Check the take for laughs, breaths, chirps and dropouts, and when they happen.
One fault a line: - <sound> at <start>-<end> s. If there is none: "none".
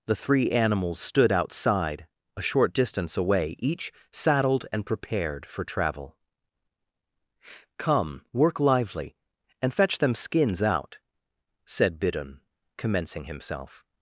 none